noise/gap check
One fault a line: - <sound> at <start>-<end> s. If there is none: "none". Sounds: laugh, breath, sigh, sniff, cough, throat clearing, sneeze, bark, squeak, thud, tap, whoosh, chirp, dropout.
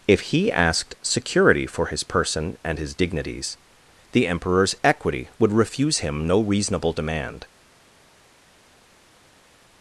none